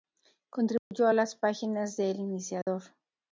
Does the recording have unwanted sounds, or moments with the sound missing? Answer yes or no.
yes